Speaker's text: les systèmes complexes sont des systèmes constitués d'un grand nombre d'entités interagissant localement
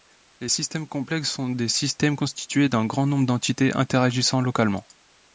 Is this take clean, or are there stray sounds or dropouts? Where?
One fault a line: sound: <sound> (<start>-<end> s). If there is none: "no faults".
no faults